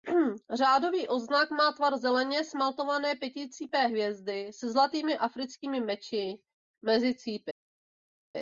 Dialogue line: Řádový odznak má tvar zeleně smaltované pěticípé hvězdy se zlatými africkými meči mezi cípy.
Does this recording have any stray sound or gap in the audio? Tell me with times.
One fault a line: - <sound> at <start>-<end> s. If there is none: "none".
none